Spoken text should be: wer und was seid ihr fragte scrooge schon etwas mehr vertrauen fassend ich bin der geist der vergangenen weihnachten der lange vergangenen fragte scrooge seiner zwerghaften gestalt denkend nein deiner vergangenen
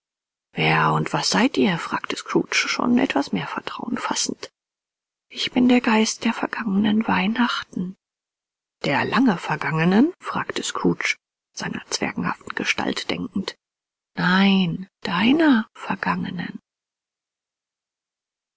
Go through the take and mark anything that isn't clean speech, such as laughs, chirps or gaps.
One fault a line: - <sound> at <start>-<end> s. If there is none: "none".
none